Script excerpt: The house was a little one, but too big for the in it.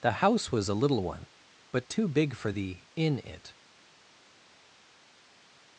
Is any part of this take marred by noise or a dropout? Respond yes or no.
no